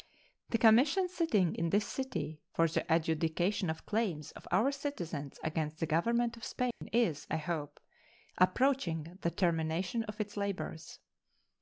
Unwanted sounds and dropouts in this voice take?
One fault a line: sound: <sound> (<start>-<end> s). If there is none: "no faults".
sound: dropout (6.7-6.8 s)